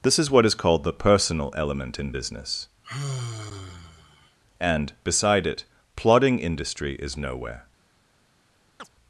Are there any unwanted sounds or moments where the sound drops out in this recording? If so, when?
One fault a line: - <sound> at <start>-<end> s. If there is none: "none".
- sigh at 2.8-4.4 s
- chirp at 8.8-8.9 s